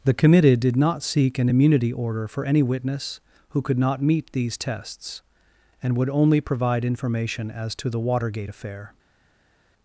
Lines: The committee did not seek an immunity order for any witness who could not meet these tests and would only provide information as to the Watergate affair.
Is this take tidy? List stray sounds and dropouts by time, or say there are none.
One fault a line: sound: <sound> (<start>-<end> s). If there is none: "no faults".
no faults